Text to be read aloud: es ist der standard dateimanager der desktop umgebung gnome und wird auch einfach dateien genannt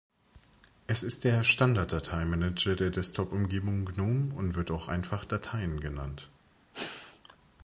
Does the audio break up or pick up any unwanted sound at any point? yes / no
yes